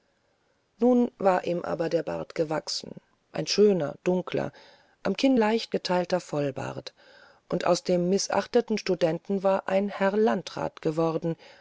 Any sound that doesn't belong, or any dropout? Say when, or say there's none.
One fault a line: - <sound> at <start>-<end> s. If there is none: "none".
none